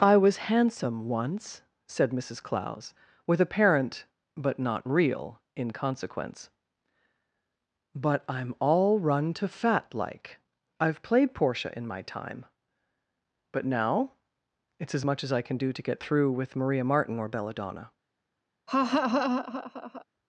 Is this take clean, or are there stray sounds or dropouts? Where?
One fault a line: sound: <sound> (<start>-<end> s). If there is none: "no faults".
sound: laugh (18.7-20.1 s)